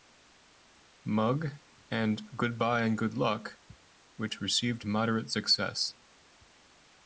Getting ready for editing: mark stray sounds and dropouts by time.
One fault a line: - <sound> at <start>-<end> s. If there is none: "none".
none